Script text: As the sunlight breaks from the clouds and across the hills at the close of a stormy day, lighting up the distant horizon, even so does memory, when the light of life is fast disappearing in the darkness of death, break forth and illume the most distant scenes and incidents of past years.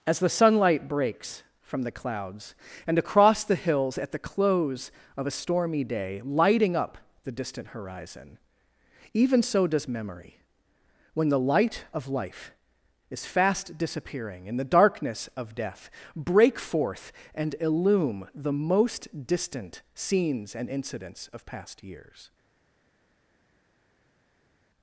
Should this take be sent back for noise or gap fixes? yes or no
no